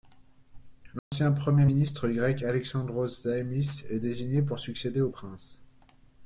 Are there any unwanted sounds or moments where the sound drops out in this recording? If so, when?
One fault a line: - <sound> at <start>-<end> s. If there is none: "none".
- dropout at 1.0-1.1 s